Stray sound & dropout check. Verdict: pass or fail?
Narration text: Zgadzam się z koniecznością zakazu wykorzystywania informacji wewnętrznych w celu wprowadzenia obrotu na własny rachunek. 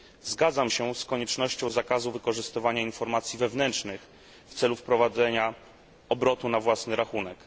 pass